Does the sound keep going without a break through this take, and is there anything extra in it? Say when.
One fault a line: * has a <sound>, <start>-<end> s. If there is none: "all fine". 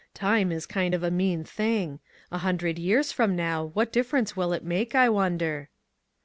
all fine